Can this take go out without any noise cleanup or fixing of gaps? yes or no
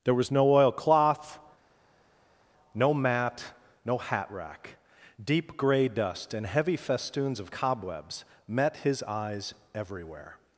yes